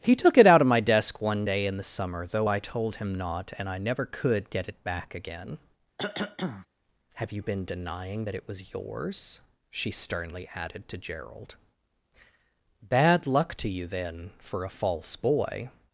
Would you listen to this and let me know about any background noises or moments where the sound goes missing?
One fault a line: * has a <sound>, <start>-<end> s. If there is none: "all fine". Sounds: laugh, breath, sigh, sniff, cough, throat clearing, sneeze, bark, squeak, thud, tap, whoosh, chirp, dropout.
* has a cough, 6.0-6.7 s